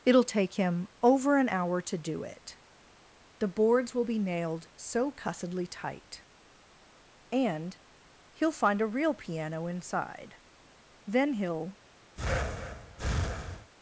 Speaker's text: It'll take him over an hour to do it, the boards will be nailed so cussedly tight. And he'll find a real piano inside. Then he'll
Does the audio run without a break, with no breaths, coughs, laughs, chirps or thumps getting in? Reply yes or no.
no